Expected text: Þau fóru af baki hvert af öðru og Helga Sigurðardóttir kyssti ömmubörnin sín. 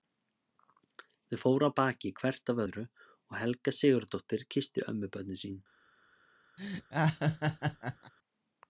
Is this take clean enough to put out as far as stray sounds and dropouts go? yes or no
no